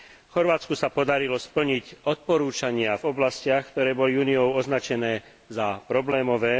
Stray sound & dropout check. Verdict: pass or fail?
pass